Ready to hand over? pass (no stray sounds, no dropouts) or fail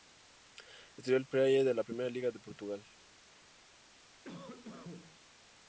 fail